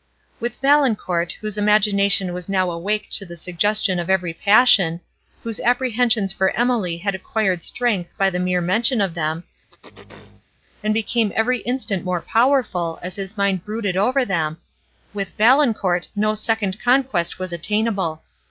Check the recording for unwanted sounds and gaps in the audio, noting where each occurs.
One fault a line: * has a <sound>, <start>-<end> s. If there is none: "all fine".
* has a throat clearing, 9.7-10.5 s